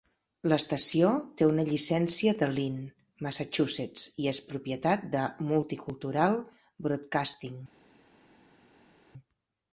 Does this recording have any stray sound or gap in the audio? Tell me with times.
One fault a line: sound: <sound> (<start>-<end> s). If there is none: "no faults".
no faults